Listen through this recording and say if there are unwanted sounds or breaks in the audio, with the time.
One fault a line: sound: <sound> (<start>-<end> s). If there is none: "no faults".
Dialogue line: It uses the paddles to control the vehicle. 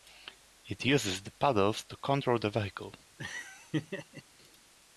sound: laugh (3.2-4.2 s)